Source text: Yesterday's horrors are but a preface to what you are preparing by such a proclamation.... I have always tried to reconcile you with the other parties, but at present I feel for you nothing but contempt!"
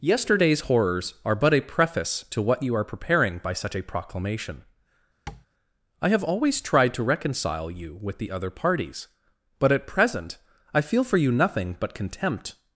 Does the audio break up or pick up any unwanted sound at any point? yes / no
yes